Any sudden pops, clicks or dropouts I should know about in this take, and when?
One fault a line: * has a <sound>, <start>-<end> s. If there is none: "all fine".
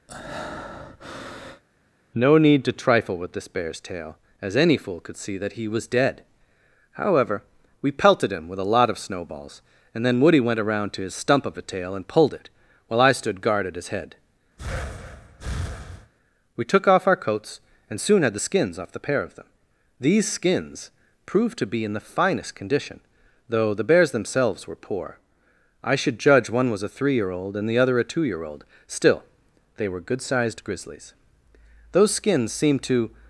* has a breath, 0.1-1.6 s
* has a breath, 14.6-16.1 s